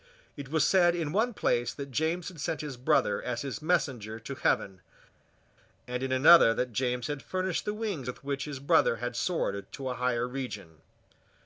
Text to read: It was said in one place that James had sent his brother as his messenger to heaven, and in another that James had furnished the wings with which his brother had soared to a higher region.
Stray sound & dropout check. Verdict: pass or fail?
pass